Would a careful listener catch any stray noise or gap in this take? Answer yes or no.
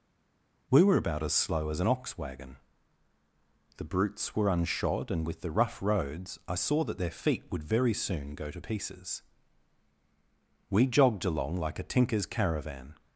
no